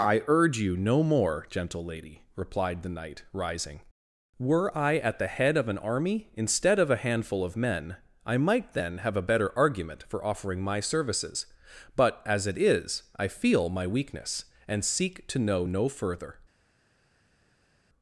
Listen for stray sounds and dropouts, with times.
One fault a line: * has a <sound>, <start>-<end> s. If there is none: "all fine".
all fine